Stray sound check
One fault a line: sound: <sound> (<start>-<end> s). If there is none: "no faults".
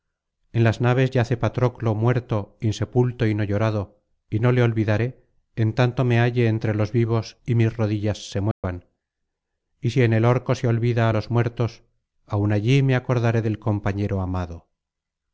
sound: dropout (8.5-8.6 s)